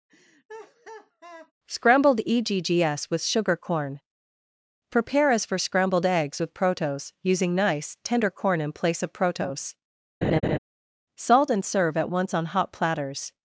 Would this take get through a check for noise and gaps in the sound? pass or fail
fail